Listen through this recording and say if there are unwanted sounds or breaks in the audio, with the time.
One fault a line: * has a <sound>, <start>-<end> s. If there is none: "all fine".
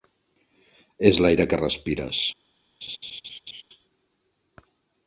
* has a laugh, 2.8-3.6 s